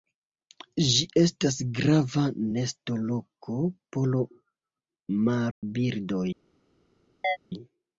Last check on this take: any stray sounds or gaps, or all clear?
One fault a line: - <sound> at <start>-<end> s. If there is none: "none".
- dropout at 5.5-5.6 s
- chirp at 7.2-7.4 s